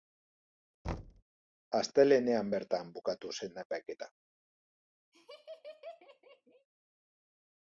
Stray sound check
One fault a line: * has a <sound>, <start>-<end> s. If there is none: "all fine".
* has a thud, 0.8-1.2 s
* has a laugh, 5.1-6.7 s